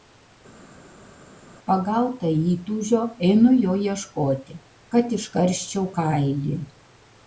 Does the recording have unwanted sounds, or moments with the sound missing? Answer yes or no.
no